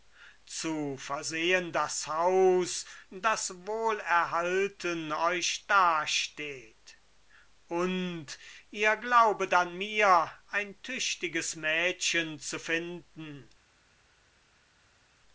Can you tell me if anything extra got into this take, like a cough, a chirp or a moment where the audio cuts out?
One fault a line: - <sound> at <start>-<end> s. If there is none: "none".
none